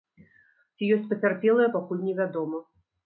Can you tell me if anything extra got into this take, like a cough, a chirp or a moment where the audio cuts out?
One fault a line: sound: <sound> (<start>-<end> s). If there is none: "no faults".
no faults